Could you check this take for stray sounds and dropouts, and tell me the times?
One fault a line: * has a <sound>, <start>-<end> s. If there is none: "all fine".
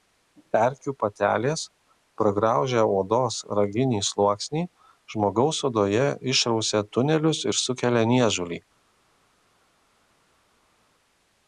all fine